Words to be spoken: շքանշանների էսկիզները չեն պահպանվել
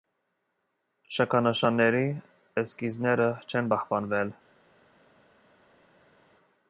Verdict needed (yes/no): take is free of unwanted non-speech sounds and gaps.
yes